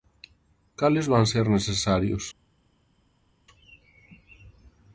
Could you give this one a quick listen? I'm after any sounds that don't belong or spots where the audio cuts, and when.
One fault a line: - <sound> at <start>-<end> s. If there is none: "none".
none